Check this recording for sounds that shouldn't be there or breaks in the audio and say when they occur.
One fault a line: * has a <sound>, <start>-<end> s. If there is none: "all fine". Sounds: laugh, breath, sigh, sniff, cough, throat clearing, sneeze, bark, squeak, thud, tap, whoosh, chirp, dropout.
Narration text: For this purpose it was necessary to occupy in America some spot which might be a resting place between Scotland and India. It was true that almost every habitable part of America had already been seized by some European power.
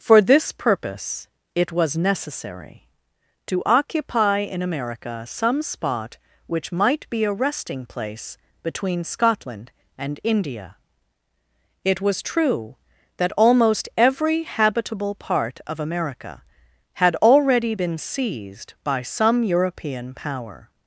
all fine